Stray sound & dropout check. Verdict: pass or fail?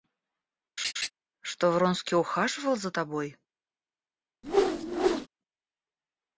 fail